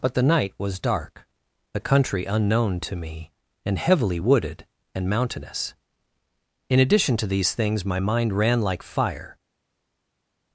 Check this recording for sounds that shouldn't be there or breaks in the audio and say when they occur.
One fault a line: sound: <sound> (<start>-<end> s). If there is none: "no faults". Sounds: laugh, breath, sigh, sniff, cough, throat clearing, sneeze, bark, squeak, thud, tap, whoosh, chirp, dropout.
no faults